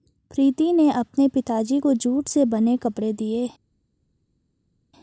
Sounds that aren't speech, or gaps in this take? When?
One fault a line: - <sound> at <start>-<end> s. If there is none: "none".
none